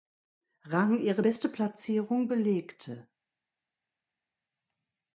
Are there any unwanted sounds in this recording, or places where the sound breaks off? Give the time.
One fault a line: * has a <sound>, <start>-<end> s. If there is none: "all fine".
all fine